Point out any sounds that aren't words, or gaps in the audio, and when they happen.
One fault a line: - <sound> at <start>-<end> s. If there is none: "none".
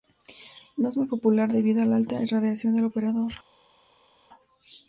none